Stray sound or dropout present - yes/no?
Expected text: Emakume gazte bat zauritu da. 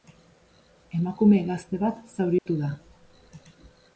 yes